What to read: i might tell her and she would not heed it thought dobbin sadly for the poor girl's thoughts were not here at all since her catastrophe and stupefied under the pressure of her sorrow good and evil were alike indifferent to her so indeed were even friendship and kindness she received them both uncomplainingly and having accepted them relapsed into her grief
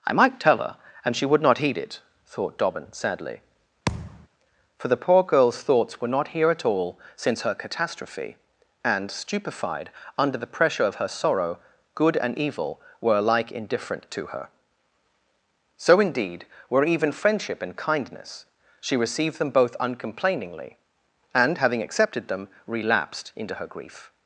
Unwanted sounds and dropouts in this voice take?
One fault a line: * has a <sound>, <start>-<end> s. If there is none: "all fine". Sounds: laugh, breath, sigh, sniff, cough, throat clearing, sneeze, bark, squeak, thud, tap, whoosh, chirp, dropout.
* has a thud, 3.9-4.3 s